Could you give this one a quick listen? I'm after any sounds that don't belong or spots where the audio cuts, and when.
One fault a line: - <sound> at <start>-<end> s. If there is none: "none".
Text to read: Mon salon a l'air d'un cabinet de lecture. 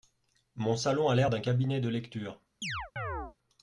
- chirp at 2.6-3.4 s